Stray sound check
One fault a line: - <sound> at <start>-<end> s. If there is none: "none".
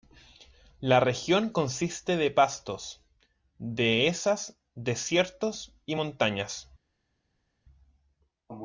none